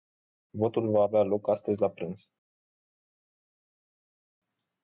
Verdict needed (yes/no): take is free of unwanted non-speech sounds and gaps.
yes